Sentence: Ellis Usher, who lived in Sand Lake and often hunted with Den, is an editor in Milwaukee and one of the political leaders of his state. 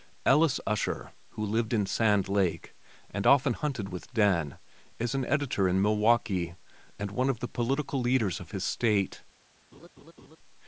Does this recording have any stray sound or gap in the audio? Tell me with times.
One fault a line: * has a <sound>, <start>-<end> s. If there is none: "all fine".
* has a laugh, 9.7-10.4 s